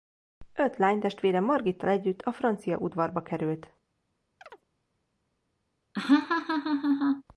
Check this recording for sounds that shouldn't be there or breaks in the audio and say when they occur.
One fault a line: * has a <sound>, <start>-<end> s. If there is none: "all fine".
* has a chirp, 4.4-4.6 s
* has a laugh, 5.9-7.2 s